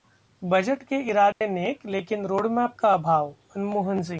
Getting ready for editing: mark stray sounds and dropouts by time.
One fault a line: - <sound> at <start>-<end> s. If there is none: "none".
- dropout at 1.3-1.4 s